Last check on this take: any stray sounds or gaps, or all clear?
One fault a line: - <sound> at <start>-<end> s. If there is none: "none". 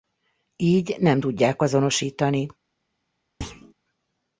- thud at 3.4-3.7 s